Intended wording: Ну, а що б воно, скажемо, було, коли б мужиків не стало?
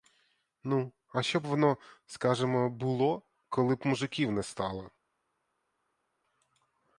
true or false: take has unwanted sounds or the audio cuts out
false